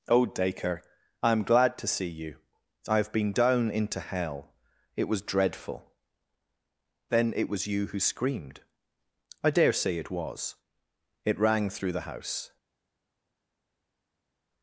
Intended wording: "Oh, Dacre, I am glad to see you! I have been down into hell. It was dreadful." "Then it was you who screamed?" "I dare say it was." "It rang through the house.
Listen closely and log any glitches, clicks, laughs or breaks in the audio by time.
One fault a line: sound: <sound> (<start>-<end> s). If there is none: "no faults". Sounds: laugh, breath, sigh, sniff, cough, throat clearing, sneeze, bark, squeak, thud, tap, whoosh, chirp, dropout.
no faults